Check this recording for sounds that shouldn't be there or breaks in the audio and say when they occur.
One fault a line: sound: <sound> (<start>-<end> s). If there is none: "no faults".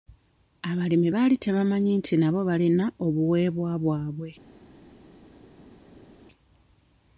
no faults